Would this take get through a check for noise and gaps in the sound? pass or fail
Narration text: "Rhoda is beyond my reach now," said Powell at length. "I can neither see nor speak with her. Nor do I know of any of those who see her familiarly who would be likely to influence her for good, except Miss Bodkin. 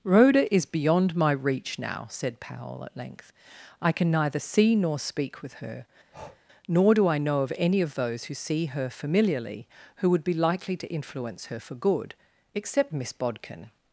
fail